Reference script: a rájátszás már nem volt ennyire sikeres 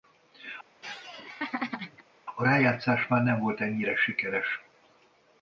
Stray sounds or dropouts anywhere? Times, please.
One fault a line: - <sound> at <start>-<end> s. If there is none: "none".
- laugh at 0.8-2.0 s